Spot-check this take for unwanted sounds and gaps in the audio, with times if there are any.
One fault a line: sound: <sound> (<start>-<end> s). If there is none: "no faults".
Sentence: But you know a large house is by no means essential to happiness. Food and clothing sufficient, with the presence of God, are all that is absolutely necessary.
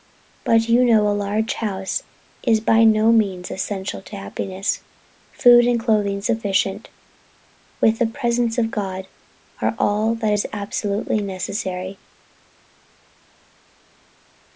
no faults